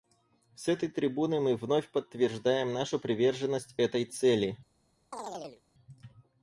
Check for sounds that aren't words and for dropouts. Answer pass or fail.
fail